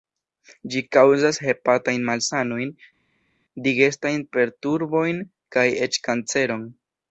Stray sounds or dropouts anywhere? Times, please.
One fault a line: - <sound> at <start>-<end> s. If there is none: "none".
none